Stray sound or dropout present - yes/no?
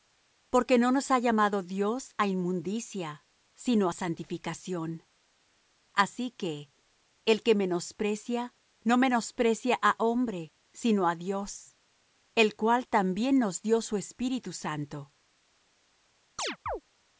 yes